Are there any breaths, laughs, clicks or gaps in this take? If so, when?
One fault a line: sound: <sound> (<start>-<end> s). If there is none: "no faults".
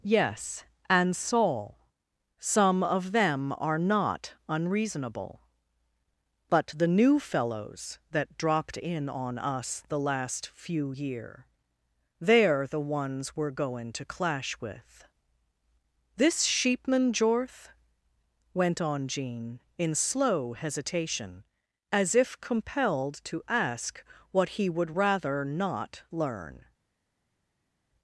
no faults